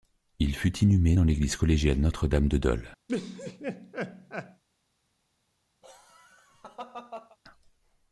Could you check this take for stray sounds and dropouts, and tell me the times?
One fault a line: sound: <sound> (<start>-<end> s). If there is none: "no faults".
sound: laugh (3.1-4.6 s)
sound: laugh (5.8-7.4 s)